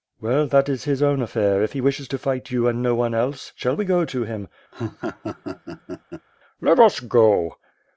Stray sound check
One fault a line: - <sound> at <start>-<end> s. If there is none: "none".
- laugh at 4.7-6.3 s